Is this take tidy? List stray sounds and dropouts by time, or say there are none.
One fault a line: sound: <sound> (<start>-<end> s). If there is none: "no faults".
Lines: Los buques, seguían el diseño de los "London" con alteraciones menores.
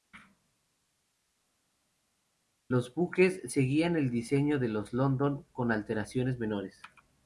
no faults